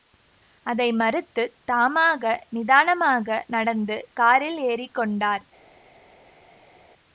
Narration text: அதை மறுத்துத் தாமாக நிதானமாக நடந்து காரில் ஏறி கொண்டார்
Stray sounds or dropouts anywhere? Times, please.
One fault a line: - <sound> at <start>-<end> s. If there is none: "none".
none